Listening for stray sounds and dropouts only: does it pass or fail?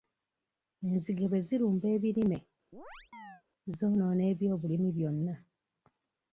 fail